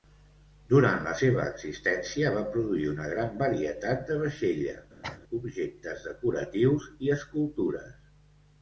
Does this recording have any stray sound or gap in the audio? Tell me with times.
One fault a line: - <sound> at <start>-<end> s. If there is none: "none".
- cough at 5.0-5.2 s